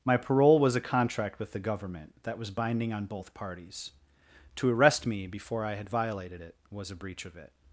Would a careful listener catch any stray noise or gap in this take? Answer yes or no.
no